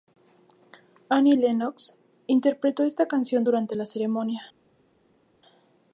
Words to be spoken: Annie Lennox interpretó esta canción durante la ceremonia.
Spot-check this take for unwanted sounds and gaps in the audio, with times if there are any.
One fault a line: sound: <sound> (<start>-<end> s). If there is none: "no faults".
no faults